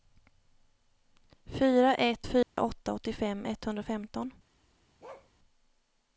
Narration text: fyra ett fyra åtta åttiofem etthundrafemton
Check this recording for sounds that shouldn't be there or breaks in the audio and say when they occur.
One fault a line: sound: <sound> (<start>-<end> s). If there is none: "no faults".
sound: dropout (2.4-2.6 s)
sound: bark (5.0-5.3 s)